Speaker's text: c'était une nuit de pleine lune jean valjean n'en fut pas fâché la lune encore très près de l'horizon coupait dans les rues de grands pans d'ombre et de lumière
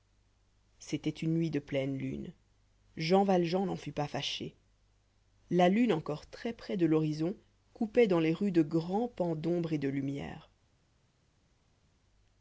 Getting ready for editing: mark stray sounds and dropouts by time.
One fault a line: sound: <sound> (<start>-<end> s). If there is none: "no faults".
no faults